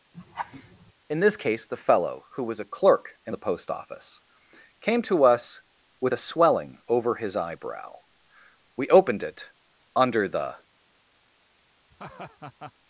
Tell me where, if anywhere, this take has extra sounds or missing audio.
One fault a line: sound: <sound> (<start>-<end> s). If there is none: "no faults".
sound: laugh (0.1-0.9 s)
sound: laugh (11.9-12.7 s)